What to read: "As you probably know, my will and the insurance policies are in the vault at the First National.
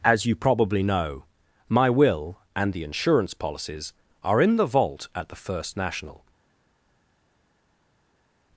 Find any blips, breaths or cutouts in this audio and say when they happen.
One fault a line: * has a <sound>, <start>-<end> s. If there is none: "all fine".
all fine